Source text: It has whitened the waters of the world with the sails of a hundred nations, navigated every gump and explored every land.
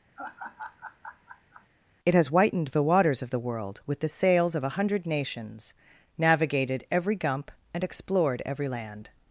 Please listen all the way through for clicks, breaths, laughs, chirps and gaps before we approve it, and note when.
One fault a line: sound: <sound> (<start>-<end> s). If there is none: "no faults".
sound: laugh (0.2-1.7 s)